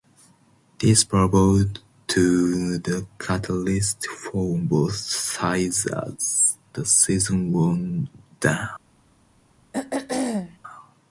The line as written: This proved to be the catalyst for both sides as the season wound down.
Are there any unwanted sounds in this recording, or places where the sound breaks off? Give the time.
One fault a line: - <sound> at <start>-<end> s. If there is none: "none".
- throat clearing at 9.7-10.6 s